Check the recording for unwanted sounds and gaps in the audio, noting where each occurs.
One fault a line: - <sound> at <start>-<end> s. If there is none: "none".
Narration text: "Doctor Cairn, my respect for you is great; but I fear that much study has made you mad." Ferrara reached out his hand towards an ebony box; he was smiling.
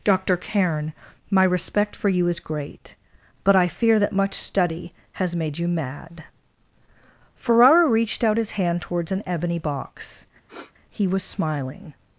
- sniff at 10.5-10.7 s